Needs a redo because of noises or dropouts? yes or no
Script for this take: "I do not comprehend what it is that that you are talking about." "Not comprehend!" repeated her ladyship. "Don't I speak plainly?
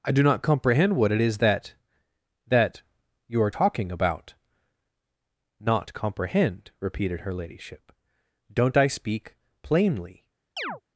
yes